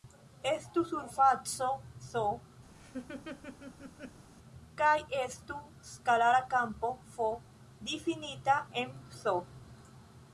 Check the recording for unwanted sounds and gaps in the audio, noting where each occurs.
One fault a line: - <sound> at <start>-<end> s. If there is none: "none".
- laugh at 2.7-4.2 s